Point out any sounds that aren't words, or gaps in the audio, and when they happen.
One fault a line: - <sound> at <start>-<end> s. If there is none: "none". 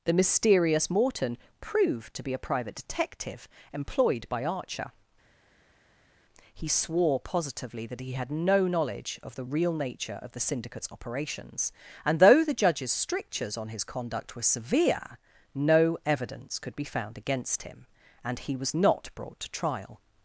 none